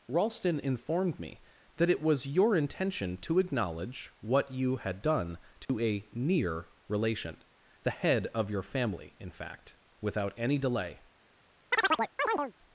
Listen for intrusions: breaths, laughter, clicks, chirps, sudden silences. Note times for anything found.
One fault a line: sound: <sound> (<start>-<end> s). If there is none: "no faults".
sound: dropout (5.6-5.7 s)
sound: chirp (11.7-12.5 s)